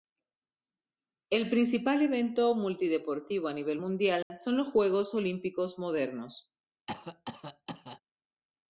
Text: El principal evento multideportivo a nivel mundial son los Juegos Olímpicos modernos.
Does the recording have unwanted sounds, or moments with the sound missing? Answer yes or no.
yes